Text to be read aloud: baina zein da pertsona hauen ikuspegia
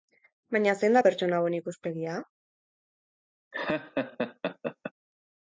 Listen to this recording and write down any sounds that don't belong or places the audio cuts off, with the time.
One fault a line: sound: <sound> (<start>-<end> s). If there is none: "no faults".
sound: laugh (3.5-4.9 s)